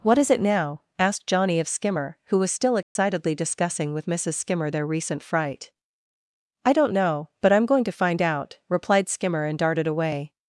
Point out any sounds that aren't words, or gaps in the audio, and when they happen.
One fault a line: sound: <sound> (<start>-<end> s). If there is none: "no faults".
sound: dropout (2.8-3.0 s)